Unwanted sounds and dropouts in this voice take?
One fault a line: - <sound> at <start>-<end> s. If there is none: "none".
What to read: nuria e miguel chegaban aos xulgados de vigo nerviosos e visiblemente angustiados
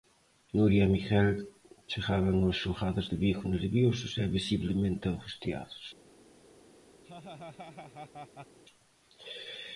- laugh at 7.0-8.6 s